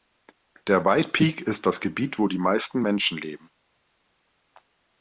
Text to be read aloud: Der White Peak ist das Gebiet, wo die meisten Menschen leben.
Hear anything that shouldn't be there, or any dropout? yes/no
no